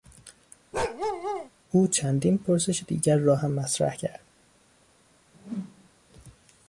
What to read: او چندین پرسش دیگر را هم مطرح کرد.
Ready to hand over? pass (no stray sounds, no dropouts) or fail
fail